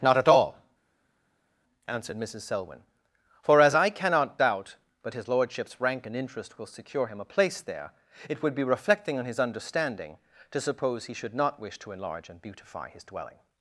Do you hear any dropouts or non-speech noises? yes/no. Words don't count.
no